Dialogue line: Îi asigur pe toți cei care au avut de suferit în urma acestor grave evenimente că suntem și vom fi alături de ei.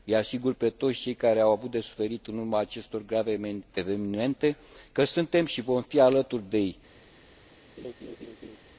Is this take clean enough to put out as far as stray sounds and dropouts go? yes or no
no